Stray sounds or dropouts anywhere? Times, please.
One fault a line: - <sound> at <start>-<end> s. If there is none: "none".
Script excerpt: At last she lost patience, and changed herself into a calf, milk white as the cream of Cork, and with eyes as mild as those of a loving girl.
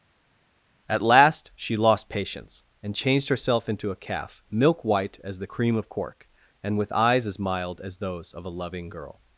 none